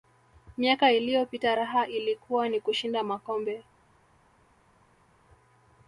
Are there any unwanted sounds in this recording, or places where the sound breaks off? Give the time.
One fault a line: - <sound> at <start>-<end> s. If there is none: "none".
none